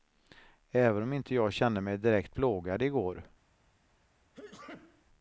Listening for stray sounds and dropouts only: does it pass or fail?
fail